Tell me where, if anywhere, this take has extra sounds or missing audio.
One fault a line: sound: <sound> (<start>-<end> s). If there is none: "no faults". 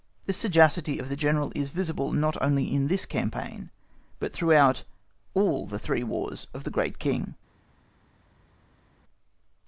no faults